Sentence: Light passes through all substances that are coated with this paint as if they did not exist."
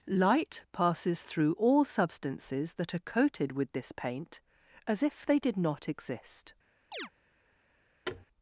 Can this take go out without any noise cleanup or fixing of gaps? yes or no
no